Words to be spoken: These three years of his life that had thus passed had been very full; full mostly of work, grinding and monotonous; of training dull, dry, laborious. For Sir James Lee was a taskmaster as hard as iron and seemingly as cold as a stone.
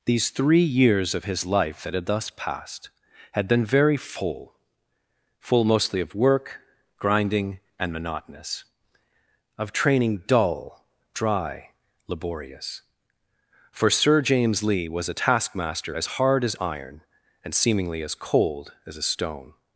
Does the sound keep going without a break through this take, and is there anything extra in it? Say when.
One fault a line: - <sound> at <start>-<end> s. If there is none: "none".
none